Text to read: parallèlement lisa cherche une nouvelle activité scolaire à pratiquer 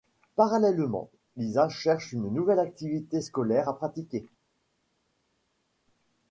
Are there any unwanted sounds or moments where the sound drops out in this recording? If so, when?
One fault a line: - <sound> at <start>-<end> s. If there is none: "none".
none